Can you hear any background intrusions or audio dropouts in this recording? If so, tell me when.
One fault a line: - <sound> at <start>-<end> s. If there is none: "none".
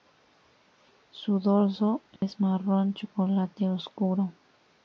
- dropout at 2.2-2.2 s